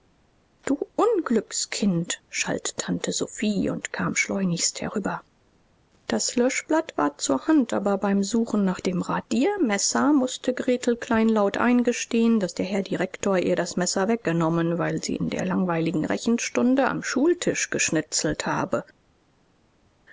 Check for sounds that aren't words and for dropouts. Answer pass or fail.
pass